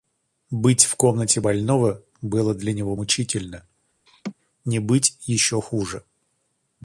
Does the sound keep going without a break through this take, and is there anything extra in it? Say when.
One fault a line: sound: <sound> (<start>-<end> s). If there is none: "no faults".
sound: laugh (4.1-4.3 s)